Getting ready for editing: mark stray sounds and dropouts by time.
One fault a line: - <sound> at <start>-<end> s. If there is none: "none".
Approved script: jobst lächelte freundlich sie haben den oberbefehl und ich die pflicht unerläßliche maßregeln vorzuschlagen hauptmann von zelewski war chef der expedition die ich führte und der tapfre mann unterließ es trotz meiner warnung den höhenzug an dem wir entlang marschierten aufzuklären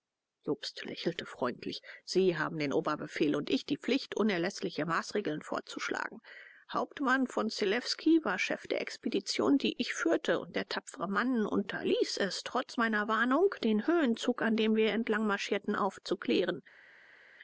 none